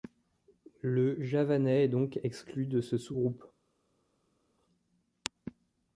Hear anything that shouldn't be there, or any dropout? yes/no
no